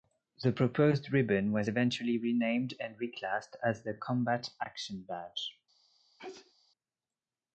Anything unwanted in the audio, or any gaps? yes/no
yes